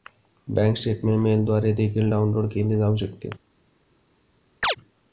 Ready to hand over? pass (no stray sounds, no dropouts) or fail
fail